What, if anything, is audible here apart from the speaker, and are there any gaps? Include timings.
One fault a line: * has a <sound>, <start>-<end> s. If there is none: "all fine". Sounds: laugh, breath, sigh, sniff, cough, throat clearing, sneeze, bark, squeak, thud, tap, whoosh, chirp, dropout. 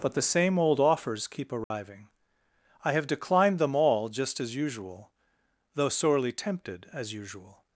* has a dropout, 1.6-1.7 s